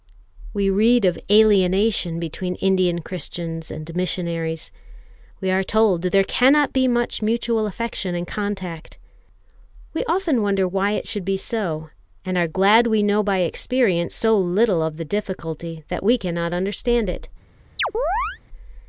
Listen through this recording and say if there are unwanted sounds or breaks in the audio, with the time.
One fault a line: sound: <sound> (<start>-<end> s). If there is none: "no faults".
sound: chirp (17.8-18.4 s)